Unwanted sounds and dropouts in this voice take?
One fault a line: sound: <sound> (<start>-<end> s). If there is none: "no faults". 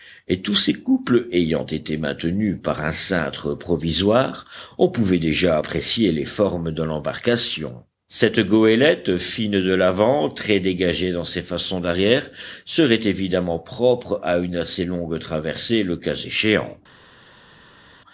no faults